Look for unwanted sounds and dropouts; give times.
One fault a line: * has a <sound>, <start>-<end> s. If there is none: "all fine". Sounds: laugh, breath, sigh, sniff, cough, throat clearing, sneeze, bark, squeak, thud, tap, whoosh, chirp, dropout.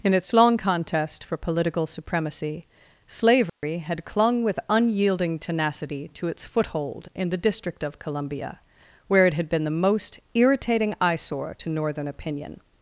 * has a dropout, 3.5-3.6 s